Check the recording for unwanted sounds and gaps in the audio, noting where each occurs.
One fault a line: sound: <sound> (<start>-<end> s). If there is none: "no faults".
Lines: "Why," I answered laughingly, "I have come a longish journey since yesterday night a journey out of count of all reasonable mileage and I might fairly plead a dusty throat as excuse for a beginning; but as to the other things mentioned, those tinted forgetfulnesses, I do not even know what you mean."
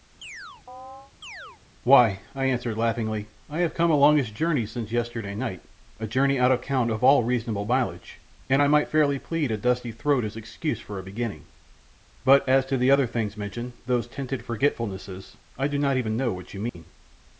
sound: chirp (0.2-1.6 s)
sound: dropout (16.7-16.7 s)